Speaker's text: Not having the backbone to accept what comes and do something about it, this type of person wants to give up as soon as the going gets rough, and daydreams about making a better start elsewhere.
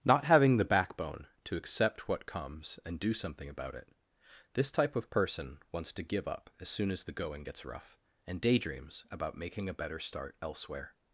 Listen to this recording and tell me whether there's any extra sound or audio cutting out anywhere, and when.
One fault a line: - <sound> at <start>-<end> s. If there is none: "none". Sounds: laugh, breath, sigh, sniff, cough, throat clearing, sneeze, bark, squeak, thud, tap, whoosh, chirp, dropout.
none